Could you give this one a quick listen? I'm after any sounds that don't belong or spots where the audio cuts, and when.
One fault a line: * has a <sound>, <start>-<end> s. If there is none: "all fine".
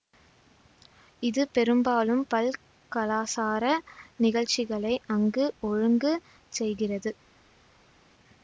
all fine